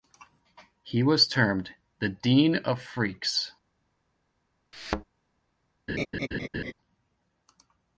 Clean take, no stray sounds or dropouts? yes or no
no